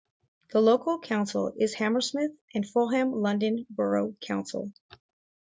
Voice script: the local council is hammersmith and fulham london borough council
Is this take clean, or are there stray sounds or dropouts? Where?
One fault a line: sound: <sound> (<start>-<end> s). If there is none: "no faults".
no faults